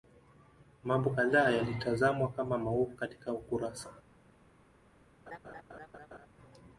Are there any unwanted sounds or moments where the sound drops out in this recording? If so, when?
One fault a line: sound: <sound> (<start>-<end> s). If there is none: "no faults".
sound: laugh (5.3-6.3 s)